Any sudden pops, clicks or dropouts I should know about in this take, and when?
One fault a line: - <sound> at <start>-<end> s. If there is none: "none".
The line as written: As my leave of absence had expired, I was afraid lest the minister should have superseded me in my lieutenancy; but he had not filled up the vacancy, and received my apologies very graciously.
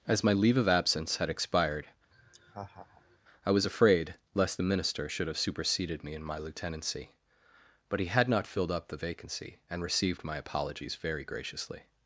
- laugh at 2.1-3.2 s